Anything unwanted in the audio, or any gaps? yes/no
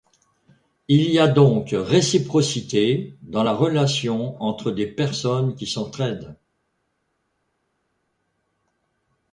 no